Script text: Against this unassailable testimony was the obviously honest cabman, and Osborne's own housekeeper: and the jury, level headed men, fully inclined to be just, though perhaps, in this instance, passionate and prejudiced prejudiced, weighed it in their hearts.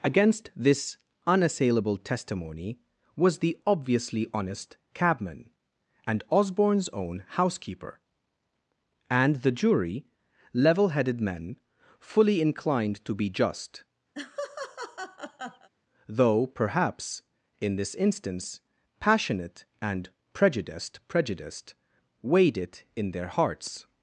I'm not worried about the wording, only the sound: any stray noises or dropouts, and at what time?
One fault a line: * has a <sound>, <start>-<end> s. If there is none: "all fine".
* has a laugh, 14.1-15.7 s